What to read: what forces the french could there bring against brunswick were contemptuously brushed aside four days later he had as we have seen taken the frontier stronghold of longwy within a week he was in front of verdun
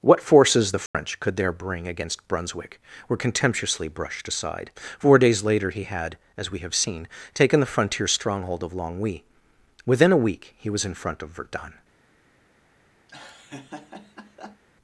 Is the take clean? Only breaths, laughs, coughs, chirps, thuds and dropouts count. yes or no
no